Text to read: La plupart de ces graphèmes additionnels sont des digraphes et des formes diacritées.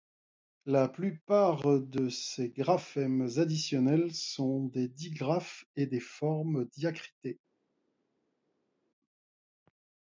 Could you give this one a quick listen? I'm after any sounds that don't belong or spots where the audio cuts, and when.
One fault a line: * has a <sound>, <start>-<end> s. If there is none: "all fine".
all fine